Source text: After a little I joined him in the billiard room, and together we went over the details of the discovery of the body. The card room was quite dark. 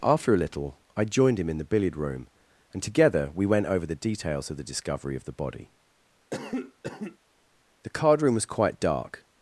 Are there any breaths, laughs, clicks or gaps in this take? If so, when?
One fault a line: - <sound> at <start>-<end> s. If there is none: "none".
- cough at 6.3-7.2 s